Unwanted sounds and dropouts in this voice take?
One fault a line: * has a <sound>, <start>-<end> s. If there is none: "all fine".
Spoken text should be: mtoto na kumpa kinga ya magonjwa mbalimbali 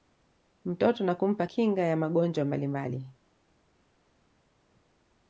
all fine